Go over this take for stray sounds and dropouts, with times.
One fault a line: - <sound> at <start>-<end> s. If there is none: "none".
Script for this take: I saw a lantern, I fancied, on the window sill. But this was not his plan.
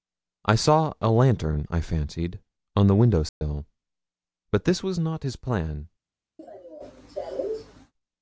- dropout at 3.3-3.4 s
- cough at 6.4-7.9 s